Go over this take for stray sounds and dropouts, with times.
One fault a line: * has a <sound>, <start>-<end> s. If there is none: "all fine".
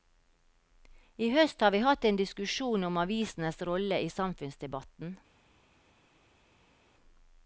all fine